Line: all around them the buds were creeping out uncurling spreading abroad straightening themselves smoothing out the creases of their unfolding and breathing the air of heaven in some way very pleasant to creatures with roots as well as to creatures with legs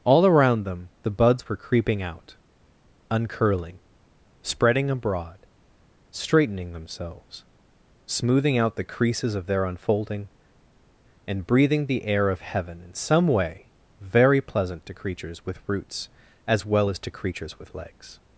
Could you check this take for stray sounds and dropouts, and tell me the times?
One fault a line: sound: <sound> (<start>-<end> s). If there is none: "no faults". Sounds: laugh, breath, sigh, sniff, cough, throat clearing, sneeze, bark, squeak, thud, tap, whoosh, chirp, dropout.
no faults